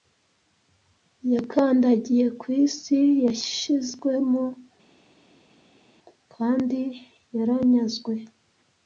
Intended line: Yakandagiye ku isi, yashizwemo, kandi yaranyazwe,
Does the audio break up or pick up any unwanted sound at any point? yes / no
no